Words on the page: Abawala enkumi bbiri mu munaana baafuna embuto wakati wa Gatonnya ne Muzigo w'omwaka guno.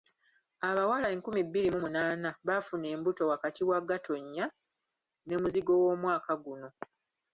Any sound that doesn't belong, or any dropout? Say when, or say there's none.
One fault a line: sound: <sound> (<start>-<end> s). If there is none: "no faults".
no faults